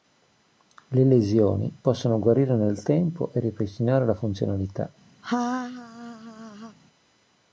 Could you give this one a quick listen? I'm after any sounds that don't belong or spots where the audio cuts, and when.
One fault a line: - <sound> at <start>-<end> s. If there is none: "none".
- laugh at 5.2-6.8 s